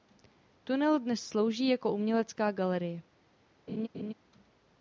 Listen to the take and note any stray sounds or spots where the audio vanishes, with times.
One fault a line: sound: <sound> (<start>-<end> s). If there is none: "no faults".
sound: laugh (3.7-4.1 s)